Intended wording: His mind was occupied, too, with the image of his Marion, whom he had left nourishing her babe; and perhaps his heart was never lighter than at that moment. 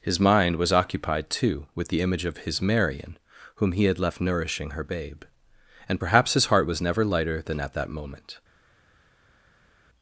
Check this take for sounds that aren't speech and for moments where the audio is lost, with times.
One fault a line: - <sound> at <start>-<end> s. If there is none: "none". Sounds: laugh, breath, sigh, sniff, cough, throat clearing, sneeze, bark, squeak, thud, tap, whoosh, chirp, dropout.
none